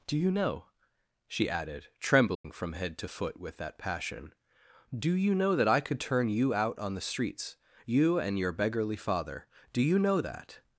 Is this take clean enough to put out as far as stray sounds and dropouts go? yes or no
no